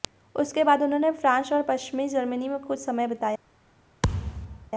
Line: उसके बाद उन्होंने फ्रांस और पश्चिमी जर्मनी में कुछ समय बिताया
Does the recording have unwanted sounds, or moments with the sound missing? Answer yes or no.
yes